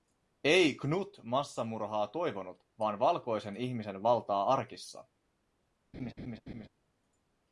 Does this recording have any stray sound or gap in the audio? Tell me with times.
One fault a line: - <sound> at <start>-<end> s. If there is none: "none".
- laugh at 5.9-6.7 s